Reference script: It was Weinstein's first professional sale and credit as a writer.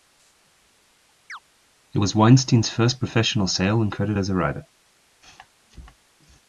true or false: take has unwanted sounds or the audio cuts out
true